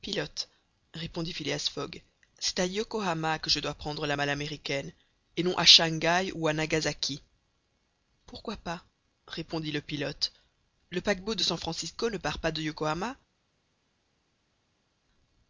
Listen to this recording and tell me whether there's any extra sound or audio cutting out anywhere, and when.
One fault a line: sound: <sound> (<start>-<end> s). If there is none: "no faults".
no faults